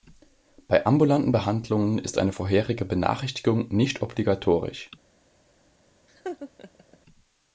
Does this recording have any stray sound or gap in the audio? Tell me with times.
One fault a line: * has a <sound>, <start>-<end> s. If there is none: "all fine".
* has a laugh, 6.1-7.0 s